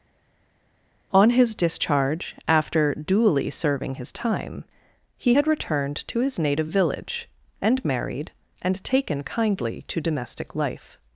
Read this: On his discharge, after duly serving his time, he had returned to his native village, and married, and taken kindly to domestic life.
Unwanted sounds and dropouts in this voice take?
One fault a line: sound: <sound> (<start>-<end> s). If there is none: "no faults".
no faults